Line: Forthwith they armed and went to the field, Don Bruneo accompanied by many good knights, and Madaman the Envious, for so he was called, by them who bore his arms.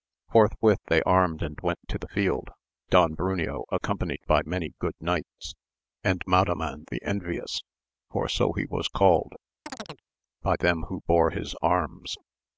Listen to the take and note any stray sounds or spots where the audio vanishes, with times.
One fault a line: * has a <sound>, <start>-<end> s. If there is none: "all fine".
* has a chirp, 9.7-10.0 s